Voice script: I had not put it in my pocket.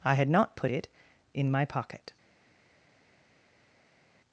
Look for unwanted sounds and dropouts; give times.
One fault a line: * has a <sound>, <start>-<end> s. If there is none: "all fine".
all fine